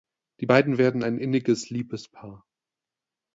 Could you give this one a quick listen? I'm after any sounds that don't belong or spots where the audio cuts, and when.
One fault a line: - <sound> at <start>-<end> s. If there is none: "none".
none